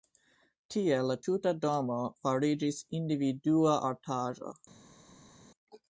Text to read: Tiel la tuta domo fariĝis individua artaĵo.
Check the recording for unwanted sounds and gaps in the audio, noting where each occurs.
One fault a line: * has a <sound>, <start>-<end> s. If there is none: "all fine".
all fine